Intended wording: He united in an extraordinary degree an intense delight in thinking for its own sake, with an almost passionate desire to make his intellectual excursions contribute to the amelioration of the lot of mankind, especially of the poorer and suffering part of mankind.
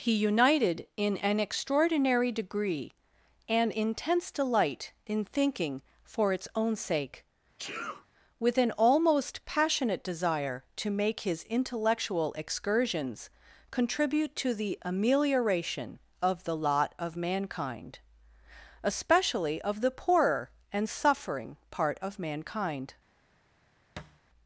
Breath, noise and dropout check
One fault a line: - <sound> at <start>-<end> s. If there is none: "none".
- sneeze at 7.6-8.1 s
- thud at 24.0-24.2 s